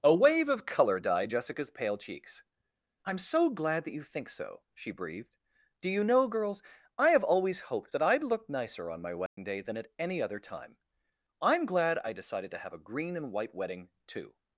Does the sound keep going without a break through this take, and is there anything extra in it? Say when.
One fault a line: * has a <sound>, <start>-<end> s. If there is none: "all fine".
* has a dropout, 9.3-9.4 s